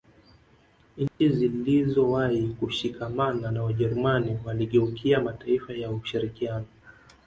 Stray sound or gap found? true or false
true